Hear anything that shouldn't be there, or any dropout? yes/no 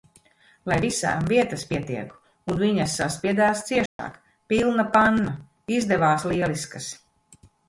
yes